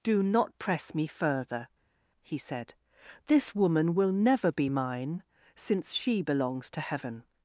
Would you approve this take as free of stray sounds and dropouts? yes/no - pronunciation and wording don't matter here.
yes